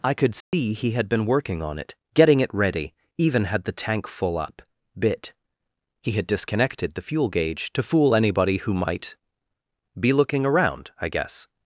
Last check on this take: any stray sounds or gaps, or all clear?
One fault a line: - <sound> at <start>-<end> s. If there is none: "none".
- dropout at 0.4-0.5 s